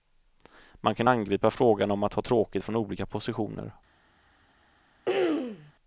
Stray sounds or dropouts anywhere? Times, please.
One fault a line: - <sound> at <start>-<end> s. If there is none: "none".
- throat clearing at 5.1-5.7 s